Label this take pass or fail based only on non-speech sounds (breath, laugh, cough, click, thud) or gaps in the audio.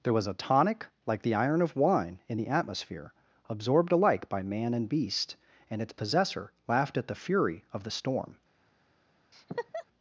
fail